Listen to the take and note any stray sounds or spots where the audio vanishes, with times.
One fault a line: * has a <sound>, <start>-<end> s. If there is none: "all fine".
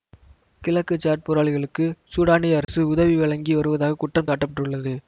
* has a dropout, 2.6-2.7 s